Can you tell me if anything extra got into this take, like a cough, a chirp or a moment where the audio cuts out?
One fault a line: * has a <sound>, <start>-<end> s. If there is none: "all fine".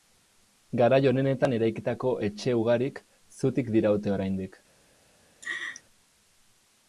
* has a laugh, 5.4-5.8 s